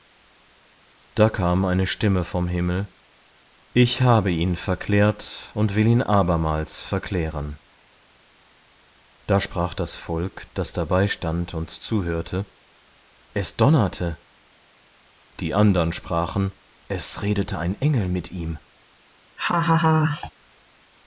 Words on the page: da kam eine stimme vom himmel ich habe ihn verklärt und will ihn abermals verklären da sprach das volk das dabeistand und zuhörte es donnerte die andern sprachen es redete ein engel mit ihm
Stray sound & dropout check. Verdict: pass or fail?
fail